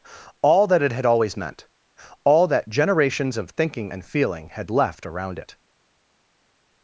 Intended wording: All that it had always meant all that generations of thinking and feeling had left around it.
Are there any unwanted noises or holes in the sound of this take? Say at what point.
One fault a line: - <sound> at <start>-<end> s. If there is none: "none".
none